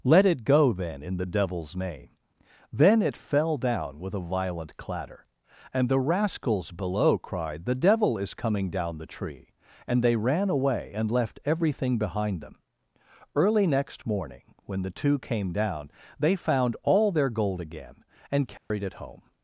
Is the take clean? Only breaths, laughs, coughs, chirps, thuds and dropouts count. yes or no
no